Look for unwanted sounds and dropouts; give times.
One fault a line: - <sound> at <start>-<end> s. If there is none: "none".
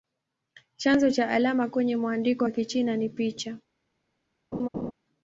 - laugh at 4.5-4.9 s